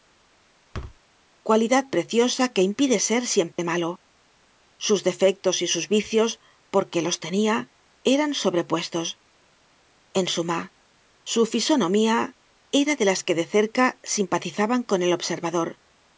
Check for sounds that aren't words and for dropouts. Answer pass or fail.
fail